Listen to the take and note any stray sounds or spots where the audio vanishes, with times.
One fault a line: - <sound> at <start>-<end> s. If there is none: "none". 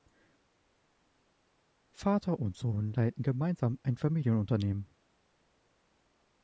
none